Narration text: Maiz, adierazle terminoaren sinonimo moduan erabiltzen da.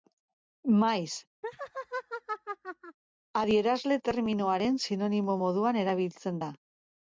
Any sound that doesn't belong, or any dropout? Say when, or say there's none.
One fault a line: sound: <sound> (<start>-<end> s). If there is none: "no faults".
sound: laugh (1.4-3.0 s)